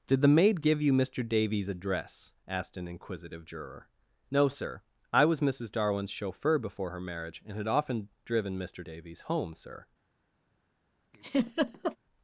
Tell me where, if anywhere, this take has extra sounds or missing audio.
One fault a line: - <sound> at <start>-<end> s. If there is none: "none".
- laugh at 11.1-12.0 s